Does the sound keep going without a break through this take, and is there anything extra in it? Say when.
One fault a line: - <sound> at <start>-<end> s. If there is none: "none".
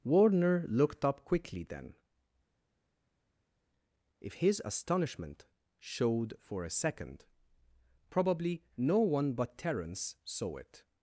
none